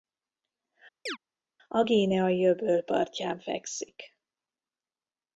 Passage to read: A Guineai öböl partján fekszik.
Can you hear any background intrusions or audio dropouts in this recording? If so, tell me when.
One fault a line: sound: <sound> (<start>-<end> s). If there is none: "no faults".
sound: chirp (1.1-1.2 s)